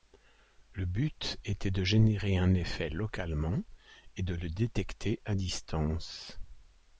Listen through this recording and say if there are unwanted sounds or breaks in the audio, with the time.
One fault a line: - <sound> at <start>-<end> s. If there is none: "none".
none